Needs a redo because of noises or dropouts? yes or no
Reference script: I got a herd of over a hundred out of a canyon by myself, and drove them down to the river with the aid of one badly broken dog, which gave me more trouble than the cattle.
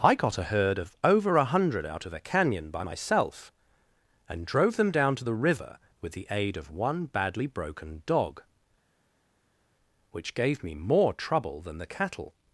no